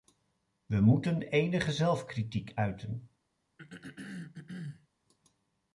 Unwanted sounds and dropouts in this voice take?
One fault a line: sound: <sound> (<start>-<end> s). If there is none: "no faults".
sound: throat clearing (3.6-4.9 s)